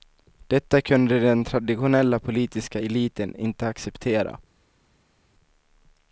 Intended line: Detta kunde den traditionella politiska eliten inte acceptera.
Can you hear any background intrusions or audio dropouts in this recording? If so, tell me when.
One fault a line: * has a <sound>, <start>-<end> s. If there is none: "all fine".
all fine